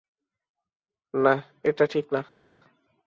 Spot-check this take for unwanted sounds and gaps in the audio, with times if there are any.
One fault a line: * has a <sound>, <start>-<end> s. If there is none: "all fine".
all fine